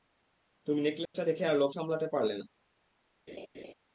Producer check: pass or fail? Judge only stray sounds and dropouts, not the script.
fail